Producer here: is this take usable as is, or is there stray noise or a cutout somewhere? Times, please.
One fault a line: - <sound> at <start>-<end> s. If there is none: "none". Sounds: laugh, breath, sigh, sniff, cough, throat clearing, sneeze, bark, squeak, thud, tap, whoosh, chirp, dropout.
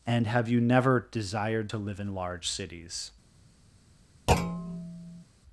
- thud at 4.3-5.2 s